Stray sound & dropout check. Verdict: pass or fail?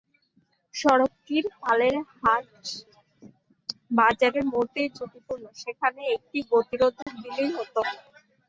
fail